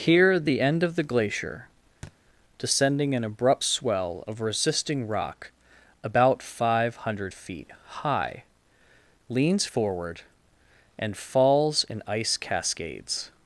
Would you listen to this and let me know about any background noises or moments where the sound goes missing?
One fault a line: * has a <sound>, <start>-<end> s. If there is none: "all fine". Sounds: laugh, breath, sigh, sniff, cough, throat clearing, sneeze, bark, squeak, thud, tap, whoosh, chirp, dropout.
* has a thud, 2.0-2.2 s